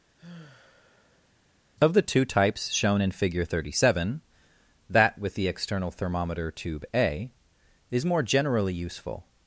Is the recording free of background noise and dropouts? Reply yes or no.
no